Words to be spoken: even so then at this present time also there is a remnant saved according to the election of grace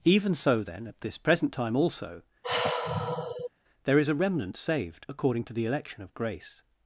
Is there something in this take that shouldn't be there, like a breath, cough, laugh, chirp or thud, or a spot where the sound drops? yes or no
yes